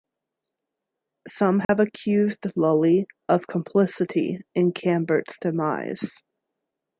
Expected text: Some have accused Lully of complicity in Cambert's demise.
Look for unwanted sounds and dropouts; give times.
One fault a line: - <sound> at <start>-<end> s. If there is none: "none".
- dropout at 1.6-1.7 s